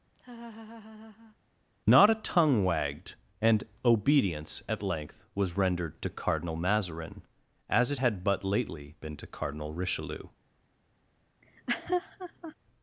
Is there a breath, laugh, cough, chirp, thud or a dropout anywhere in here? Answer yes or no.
yes